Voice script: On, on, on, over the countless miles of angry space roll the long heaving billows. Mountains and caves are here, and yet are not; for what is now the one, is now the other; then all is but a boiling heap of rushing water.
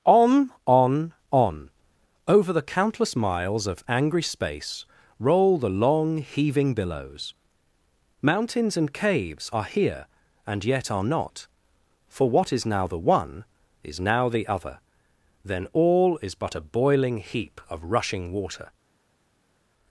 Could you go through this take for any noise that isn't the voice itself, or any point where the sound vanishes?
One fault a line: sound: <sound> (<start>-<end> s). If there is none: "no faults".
no faults